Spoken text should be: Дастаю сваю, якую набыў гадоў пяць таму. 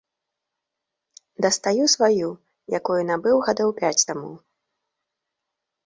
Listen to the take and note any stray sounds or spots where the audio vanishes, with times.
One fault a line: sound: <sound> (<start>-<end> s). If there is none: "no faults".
no faults